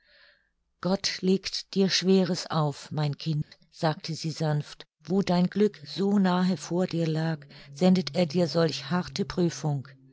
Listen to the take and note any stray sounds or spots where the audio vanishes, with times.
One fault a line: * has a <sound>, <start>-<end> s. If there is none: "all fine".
* has a dropout, 3.4-3.5 s